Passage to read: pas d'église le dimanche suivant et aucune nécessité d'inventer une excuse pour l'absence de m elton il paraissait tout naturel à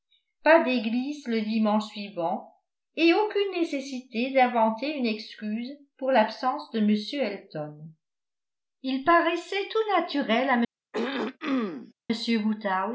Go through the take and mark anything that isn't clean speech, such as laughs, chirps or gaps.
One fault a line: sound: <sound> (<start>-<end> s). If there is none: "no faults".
sound: throat clearing (10.9-11.9 s)